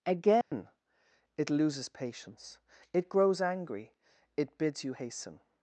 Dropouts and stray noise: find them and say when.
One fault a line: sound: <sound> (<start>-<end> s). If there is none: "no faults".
sound: dropout (0.4-0.5 s)